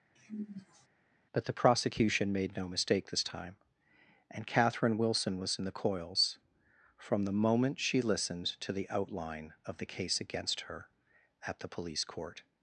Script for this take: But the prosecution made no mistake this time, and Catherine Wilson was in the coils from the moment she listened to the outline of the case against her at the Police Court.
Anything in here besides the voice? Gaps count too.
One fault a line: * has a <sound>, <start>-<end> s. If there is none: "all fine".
* has a sigh, 0.2-0.9 s